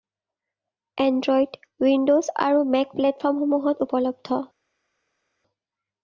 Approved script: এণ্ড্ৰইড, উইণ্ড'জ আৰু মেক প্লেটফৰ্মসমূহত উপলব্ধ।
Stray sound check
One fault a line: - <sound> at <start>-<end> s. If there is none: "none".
none